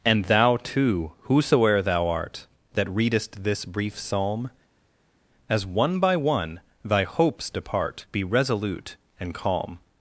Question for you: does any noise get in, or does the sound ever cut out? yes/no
no